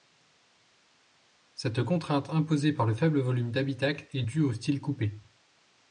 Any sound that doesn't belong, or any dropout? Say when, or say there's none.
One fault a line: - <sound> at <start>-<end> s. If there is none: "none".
none